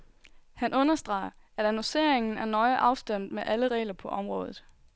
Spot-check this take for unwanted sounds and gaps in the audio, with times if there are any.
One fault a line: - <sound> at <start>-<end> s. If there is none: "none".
none